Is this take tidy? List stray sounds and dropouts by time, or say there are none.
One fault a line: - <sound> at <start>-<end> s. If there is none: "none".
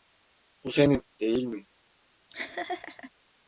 - laugh at 2.3-3.1 s